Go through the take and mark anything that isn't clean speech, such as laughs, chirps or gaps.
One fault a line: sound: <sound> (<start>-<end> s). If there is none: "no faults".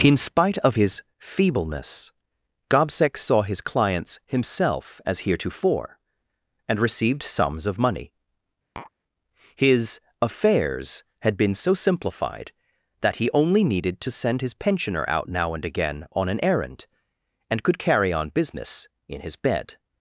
sound: tap (8.8-8.9 s)